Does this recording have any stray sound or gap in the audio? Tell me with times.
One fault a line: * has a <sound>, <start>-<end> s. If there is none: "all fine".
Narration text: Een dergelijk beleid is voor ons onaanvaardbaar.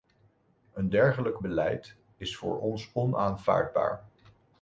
all fine